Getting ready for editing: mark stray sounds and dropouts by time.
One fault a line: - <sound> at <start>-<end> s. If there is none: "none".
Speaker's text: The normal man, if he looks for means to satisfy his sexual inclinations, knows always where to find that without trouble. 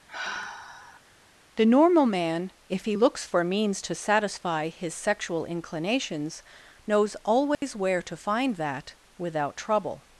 - sigh at 0.1-1.0 s
- dropout at 7.5-7.6 s